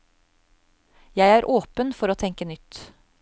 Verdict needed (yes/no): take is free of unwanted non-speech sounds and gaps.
yes